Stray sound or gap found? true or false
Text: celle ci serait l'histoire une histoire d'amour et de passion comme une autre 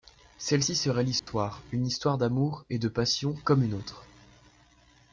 true